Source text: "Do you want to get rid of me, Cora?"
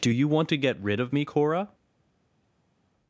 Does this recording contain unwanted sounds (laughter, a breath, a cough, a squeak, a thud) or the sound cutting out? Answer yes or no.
no